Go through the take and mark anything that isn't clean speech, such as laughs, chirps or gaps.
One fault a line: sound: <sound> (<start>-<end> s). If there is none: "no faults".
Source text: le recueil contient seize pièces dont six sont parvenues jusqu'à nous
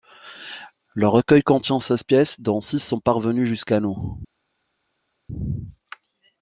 no faults